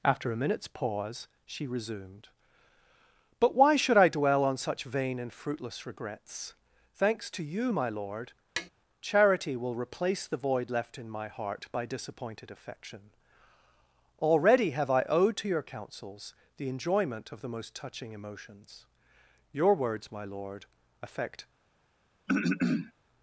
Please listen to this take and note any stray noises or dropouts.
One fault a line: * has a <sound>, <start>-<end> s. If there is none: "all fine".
* has a tap, 8.6-8.7 s
* has a throat clearing, 22.3-22.9 s